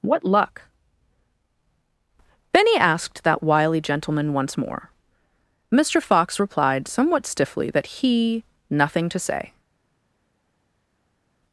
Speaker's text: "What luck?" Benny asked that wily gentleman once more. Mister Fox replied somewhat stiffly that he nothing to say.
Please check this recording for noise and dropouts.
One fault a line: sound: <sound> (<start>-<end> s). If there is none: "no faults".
no faults